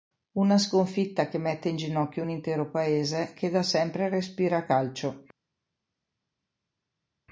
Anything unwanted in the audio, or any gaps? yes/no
no